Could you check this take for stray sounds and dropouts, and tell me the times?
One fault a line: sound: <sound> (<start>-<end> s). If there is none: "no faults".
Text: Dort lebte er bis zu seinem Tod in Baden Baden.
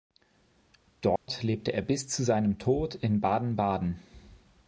sound: dropout (1.2-1.3 s)